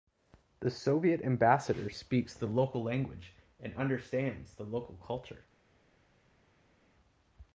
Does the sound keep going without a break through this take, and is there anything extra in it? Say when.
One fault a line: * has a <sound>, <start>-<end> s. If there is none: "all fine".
all fine